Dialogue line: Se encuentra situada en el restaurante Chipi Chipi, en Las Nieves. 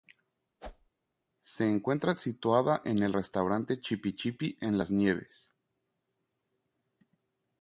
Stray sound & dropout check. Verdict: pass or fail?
fail